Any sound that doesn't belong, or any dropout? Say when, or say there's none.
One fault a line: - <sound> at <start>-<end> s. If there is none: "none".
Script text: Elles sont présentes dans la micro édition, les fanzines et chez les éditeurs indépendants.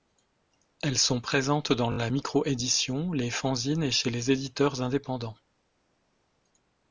none